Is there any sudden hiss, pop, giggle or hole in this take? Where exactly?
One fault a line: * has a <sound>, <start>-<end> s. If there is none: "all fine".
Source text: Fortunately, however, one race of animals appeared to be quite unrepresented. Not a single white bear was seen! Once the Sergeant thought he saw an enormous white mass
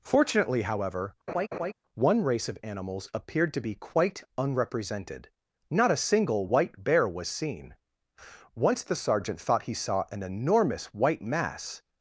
* has a laugh, 1.3-1.7 s